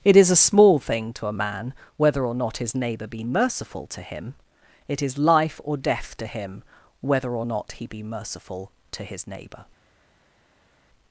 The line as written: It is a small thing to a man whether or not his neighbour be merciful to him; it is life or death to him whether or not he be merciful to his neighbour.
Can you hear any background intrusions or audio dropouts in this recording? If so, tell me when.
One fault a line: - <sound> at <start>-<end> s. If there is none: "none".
none